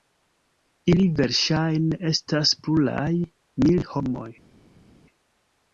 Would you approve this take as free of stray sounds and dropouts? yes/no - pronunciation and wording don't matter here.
yes